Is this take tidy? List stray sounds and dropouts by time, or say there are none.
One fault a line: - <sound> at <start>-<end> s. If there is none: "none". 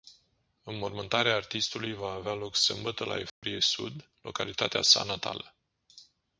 - dropout at 3.3-3.4 s